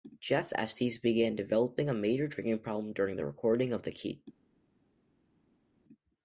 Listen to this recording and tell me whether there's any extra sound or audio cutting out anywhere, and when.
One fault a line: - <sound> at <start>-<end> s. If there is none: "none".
none